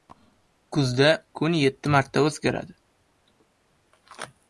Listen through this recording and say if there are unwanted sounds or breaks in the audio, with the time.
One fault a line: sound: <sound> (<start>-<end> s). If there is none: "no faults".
no faults